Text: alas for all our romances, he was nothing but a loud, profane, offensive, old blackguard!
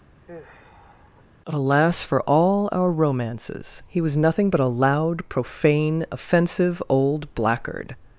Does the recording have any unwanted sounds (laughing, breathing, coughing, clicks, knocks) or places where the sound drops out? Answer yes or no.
yes